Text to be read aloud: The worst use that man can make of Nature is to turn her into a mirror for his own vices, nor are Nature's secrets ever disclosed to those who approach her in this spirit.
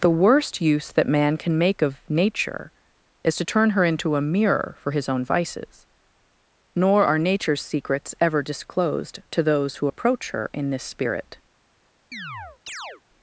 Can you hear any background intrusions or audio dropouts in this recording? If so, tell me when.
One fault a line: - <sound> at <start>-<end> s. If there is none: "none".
- chirp at 12.1-13.0 s